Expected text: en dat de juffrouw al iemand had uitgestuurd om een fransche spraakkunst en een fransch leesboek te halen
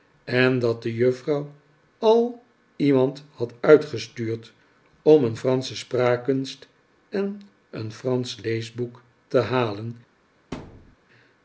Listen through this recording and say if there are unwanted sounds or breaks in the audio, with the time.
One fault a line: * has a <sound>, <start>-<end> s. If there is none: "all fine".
* has a thud, 10.5-11.0 s